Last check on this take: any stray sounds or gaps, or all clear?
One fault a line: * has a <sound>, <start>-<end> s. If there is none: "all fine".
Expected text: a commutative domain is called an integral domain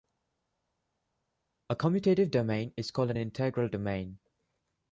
all fine